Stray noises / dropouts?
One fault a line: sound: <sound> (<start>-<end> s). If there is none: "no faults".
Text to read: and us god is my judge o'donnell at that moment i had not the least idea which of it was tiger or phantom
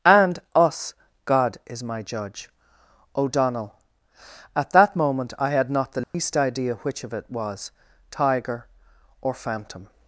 sound: dropout (6.0-6.1 s)